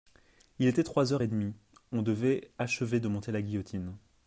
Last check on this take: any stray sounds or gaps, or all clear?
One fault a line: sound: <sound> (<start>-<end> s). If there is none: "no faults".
no faults